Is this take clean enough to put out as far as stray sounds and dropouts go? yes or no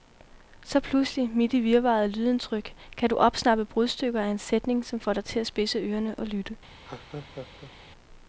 no